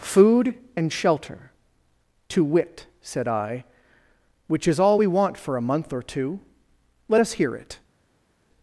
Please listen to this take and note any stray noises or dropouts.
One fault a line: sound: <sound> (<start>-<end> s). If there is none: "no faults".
no faults